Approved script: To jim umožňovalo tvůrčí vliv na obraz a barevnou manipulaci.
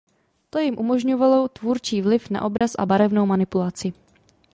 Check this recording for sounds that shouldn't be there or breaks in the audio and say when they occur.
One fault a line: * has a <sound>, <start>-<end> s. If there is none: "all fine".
* has a dropout, 2.6-2.6 s